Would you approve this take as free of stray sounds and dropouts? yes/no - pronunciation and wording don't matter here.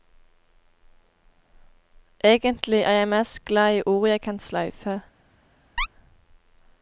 no